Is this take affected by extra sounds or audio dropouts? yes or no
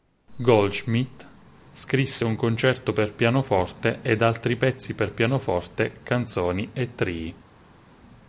no